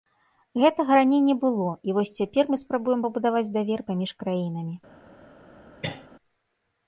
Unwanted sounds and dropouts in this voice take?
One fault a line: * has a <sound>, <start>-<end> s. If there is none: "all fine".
* has a cough, 5.8-6.1 s